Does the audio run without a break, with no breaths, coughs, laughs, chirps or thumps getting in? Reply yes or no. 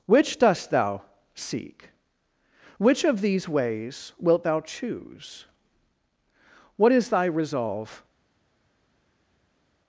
yes